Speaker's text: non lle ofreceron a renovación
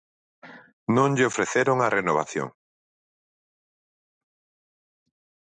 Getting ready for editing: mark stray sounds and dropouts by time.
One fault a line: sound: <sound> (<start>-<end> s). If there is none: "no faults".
no faults